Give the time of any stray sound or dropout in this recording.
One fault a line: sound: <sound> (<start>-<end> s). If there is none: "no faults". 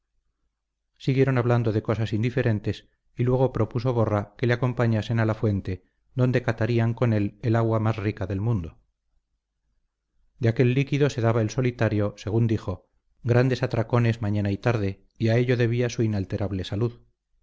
no faults